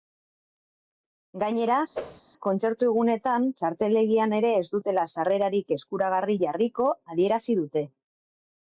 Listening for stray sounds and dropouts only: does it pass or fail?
fail